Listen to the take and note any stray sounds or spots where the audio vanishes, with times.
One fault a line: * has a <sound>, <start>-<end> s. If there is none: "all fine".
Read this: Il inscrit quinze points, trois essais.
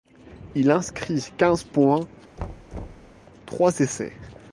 * has a thud, 2.4-3.1 s